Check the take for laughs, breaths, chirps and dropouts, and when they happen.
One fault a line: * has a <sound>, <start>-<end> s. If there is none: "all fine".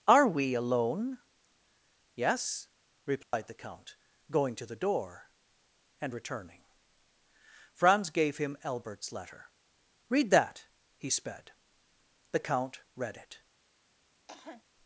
* has a dropout, 3.2-3.3 s
* has a cough, 14.3-14.6 s